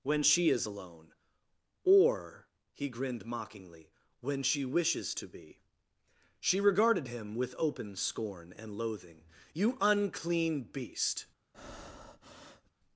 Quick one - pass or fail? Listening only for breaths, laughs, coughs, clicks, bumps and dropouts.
fail